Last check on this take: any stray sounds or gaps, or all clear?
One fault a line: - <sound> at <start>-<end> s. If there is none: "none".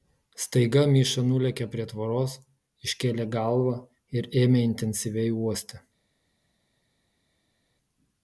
none